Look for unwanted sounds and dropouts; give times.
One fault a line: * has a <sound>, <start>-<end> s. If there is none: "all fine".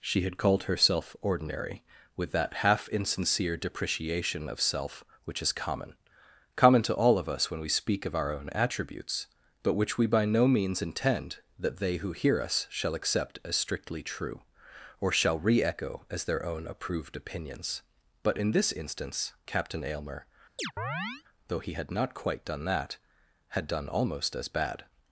* has a chirp, 20.6-21.2 s